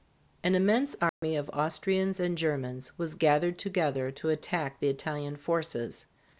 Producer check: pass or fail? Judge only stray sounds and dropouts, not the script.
fail